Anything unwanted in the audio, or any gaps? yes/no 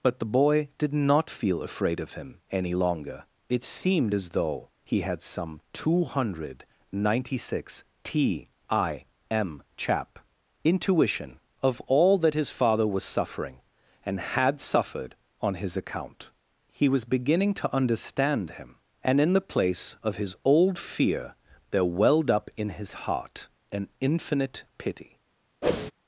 yes